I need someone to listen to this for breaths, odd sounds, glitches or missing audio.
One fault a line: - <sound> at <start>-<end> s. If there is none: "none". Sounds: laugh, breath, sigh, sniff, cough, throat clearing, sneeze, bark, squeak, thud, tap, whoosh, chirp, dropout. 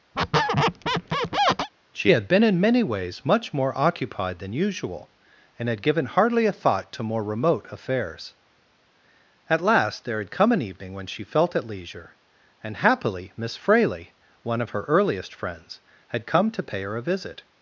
- squeak at 0.1-1.7 s